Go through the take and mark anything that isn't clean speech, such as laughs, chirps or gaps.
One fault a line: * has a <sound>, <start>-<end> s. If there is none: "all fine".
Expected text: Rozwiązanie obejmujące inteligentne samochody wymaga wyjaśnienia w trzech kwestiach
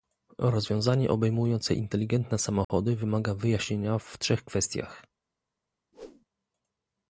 * has a dropout, 2.6-2.7 s
* has a whoosh, 5.9-6.3 s